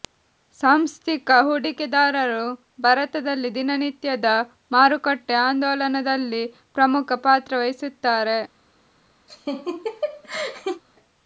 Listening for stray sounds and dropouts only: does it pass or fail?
fail